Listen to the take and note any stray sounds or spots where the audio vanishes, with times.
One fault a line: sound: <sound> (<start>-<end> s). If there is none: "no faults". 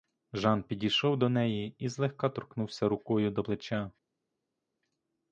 no faults